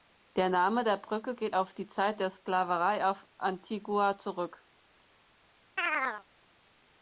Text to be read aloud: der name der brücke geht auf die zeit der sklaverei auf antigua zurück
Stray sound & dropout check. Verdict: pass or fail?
fail